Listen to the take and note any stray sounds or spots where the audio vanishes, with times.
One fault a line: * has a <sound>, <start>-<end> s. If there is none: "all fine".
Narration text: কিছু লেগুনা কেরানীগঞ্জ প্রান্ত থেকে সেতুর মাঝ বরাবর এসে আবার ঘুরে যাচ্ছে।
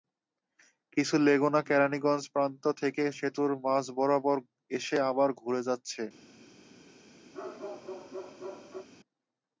* has a bark, 7.3-8.9 s